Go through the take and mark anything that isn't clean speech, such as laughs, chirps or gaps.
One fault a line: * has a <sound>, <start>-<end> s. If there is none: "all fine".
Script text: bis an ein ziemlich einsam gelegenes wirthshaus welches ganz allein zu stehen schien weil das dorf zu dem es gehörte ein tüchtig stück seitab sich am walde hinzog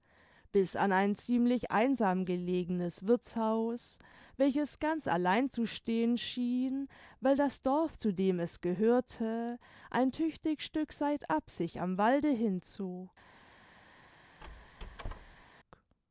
* has a squeak, 14.4-15.4 s